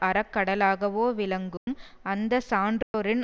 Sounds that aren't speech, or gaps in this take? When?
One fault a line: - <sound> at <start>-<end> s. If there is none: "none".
- dropout at 1.6-1.7 s
- dropout at 2.8-2.9 s